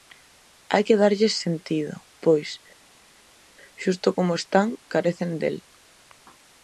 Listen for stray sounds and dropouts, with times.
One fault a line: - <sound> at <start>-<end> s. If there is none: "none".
none